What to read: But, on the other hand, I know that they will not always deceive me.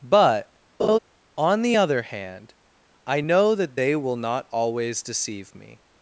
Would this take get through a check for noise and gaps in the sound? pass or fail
fail